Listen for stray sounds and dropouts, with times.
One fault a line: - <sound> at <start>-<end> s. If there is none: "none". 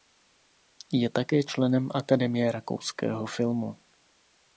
none